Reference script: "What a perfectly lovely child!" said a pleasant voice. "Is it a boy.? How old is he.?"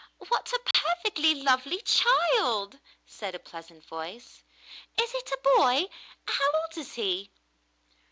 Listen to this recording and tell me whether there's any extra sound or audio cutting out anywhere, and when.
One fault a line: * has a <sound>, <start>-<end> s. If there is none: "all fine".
* has a dropout, 0.7-0.7 s